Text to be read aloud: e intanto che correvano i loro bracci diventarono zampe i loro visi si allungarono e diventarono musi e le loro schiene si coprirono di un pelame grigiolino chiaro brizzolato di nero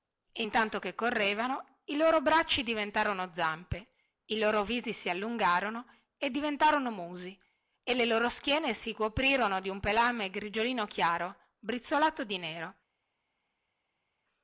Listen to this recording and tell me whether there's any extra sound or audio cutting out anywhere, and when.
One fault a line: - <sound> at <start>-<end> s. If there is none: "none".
none